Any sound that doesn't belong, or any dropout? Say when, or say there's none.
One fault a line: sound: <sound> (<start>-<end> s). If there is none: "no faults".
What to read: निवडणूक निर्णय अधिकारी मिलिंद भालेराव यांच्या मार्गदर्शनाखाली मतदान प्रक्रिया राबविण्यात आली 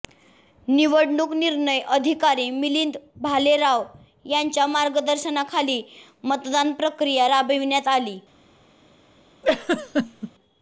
sound: laugh (9.4-10.3 s)